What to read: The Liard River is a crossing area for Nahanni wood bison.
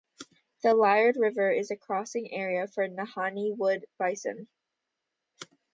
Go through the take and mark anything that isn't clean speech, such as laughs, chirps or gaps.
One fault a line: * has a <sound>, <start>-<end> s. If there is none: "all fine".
all fine